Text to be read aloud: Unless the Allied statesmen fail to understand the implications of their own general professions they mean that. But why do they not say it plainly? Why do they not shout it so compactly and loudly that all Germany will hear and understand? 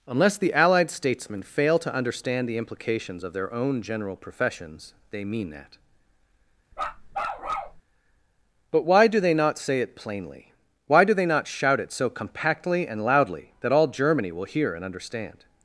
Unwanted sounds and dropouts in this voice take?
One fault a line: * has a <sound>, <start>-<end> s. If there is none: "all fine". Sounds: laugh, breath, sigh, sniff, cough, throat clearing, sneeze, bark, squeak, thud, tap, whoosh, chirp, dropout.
* has a bark, 6.7-7.8 s